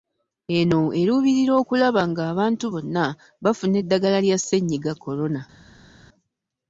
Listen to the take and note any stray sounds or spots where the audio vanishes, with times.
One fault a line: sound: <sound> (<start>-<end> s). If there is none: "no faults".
no faults